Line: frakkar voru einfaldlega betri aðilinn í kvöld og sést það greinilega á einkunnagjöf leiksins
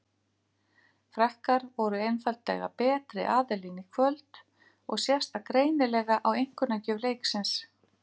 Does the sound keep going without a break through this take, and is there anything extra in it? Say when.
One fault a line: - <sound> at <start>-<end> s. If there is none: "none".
none